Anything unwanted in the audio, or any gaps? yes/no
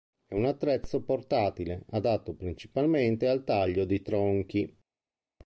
no